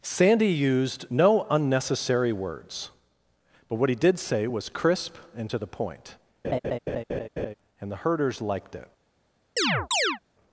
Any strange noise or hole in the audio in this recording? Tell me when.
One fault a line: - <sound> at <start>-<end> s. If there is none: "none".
- laugh at 6.4-7.5 s
- chirp at 9.6-10.2 s